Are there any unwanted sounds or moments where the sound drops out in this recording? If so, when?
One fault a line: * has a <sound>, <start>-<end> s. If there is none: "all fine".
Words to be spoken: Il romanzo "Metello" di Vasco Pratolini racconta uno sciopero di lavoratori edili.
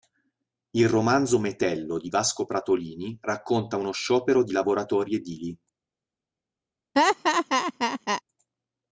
* has a laugh, 6.9-8.2 s